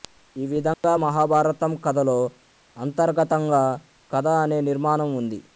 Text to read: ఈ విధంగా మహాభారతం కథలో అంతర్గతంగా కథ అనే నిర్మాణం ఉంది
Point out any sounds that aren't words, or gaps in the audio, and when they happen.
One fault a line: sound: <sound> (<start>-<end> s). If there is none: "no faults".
sound: dropout (0.7-0.8 s)